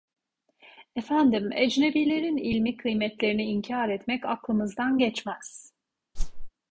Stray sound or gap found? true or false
true